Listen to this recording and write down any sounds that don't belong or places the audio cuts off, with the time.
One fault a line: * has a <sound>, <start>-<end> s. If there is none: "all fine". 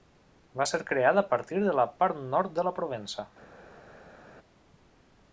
all fine